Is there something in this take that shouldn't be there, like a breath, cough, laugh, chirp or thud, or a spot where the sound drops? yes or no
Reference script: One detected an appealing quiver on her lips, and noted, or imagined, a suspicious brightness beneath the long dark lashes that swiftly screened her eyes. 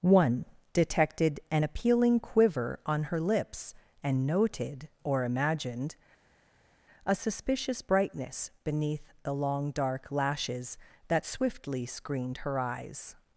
no